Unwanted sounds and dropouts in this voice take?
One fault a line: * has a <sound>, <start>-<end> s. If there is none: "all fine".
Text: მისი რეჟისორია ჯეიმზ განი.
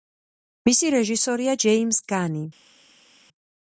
all fine